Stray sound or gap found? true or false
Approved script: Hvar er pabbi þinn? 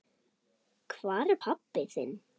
false